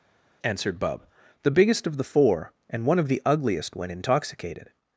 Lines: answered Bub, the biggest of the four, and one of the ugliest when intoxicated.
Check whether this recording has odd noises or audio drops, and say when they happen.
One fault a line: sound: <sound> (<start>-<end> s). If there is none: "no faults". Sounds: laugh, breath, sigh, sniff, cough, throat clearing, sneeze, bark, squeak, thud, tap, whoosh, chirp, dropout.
no faults